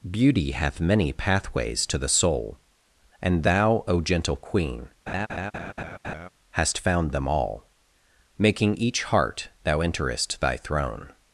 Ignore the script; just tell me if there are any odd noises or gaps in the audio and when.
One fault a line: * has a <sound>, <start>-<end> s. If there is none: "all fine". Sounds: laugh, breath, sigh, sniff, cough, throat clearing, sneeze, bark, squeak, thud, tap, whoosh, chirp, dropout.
* has a laugh, 5.1-6.3 s